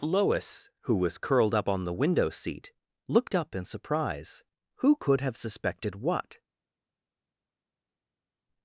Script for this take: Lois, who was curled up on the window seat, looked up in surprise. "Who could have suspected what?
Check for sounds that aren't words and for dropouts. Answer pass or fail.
pass